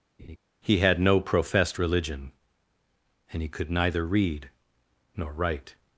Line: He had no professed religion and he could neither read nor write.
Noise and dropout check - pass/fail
fail